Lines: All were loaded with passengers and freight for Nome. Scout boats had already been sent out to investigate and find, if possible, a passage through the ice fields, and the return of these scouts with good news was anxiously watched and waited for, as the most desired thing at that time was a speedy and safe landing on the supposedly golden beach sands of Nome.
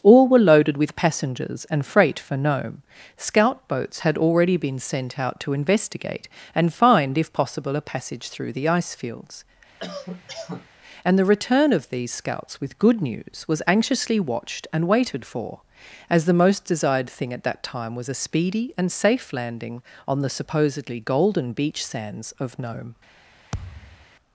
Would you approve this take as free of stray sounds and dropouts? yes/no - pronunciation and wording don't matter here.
no